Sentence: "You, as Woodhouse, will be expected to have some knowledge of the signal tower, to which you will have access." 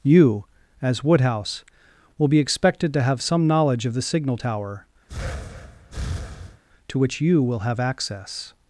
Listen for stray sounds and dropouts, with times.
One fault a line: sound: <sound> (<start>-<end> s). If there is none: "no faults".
sound: breath (5.1-6.6 s)